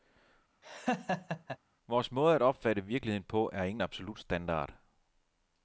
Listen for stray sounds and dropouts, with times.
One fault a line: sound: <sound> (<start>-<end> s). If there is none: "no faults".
sound: laugh (0.6-1.6 s)